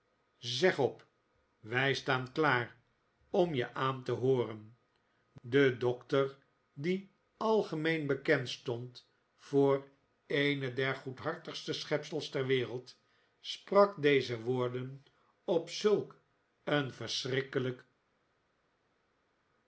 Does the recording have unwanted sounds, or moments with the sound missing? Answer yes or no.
no